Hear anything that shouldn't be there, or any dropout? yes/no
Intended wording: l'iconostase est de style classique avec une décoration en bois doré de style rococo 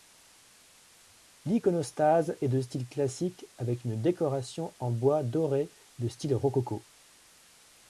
no